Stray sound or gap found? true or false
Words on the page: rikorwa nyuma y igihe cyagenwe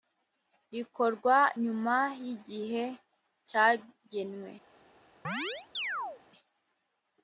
true